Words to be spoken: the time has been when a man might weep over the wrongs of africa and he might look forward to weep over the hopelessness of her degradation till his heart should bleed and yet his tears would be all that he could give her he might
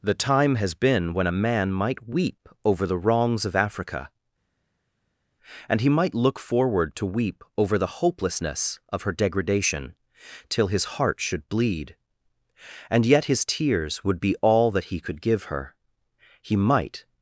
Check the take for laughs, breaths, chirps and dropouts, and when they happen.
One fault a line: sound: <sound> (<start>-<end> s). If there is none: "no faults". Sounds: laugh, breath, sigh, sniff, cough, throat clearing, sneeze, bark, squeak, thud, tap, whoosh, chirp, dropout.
no faults